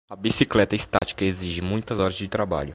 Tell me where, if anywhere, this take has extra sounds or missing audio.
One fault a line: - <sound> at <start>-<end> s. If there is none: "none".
- dropout at 1.0-1.0 s